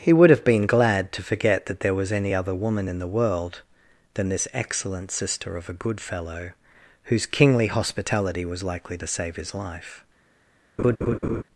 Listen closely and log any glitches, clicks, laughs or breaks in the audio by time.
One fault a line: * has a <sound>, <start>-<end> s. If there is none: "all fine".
* has a laugh, 10.8-11.4 s